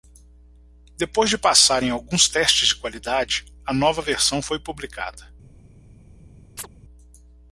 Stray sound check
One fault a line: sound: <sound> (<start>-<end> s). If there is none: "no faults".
sound: chirp (6.6-6.7 s)